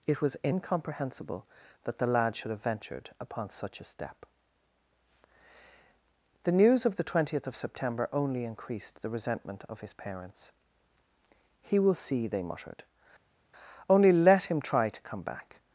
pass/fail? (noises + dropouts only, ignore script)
pass